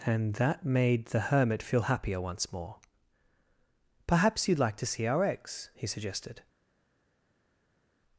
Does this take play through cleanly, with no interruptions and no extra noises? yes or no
yes